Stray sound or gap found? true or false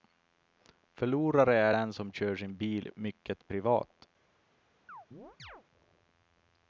true